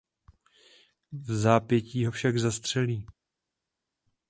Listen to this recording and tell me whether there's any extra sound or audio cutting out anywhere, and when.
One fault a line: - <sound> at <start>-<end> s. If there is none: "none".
none